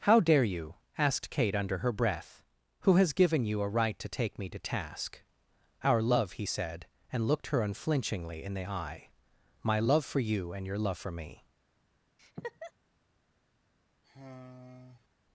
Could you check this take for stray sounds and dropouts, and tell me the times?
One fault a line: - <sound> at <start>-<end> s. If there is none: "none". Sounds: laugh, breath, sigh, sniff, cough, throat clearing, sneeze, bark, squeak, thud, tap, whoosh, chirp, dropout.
- laugh at 12.2-12.7 s
- sigh at 14.0-15.1 s